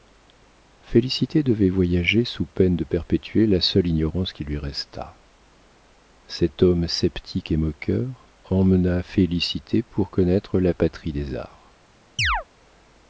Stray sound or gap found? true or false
true